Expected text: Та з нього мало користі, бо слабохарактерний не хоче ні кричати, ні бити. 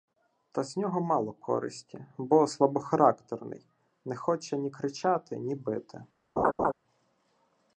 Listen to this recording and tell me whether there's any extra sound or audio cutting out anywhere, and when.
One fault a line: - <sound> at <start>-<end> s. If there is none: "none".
- laugh at 6.4-6.7 s